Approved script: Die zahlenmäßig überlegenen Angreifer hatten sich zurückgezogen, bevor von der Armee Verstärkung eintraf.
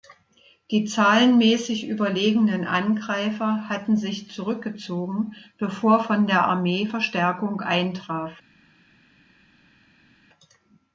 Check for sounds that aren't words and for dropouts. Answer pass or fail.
pass